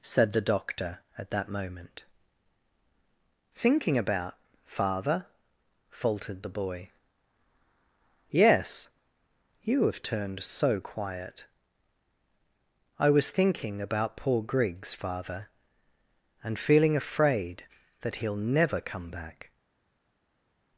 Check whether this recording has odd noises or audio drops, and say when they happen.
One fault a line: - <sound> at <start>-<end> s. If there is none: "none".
none